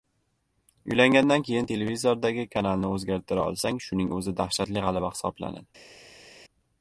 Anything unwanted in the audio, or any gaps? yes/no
no